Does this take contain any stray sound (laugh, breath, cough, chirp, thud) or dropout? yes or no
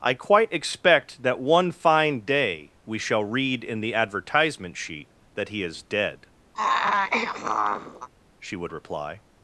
yes